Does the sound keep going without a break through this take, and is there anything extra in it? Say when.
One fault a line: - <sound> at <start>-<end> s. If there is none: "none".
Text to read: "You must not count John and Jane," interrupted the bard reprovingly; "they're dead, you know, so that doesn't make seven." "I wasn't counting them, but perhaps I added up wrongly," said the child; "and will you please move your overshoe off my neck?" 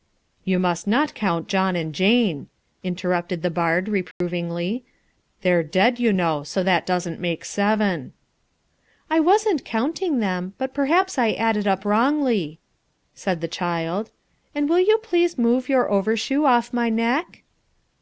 - dropout at 4.1-4.2 s